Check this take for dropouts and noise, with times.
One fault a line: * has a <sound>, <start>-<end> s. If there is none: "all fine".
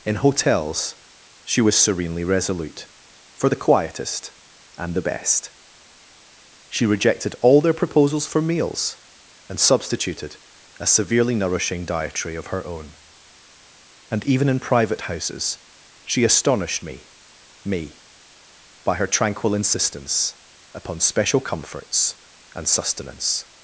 all fine